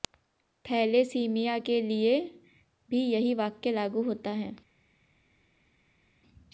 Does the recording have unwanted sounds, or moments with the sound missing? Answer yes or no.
no